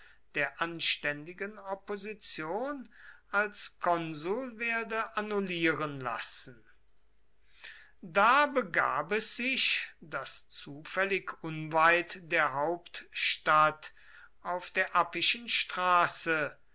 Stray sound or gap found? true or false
false